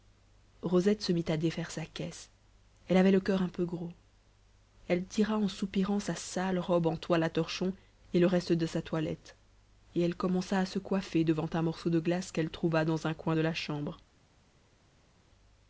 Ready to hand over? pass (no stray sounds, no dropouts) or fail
pass